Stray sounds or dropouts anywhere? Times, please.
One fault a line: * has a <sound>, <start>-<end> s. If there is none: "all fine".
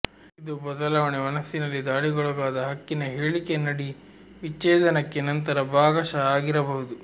all fine